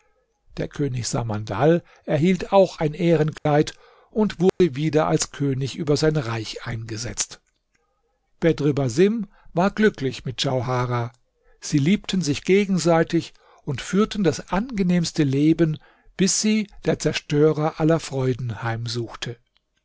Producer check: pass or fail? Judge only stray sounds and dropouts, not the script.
fail